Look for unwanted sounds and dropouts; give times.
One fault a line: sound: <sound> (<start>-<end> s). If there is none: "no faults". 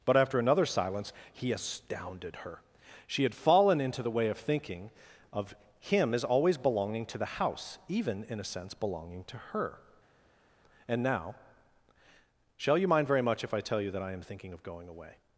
no faults